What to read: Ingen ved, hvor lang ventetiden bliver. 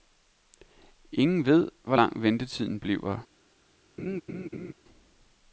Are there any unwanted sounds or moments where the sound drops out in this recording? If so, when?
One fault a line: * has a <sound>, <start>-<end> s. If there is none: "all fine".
* has a laugh, 4.0-4.7 s